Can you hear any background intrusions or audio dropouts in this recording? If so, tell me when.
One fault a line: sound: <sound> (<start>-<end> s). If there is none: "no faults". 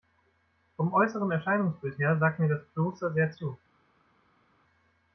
no faults